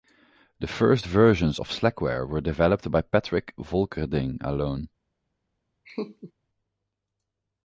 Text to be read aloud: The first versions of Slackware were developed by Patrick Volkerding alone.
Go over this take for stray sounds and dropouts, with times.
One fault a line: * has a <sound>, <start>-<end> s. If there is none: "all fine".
* has a laugh, 5.8-6.3 s